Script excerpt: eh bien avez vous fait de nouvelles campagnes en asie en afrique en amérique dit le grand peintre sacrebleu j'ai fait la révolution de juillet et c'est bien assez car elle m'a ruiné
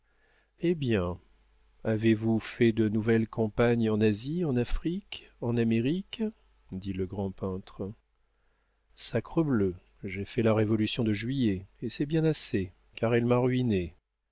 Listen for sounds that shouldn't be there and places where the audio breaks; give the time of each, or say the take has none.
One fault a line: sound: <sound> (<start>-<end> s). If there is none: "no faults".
no faults